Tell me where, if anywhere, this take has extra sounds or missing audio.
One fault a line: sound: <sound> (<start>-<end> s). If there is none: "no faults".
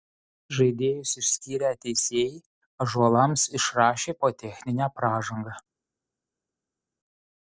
no faults